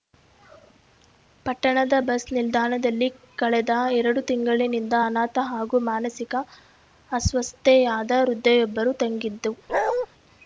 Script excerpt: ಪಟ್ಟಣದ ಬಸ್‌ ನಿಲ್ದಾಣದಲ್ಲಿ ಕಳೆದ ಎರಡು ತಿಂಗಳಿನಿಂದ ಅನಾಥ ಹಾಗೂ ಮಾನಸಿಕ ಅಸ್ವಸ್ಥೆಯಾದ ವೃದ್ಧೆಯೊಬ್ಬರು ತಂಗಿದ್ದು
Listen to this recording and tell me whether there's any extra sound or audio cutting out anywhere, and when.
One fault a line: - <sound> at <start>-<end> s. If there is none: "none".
- bark at 9.7-10.1 s